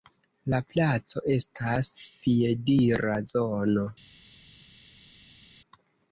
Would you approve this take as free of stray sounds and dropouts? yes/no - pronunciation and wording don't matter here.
yes